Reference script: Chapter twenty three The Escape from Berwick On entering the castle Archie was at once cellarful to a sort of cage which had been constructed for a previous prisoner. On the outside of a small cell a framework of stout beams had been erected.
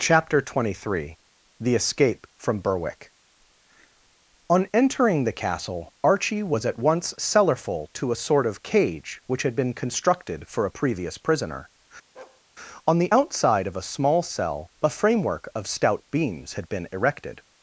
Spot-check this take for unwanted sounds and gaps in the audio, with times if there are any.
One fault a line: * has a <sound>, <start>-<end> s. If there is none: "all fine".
* has a bark, 12.1-12.4 s